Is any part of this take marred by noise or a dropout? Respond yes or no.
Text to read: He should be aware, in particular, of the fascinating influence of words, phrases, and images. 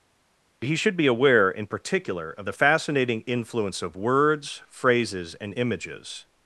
no